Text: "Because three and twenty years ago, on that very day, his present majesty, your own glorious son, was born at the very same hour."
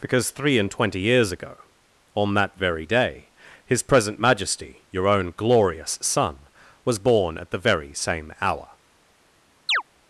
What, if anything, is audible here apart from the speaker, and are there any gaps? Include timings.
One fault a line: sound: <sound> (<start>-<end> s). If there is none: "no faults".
sound: chirp (9.7-9.8 s)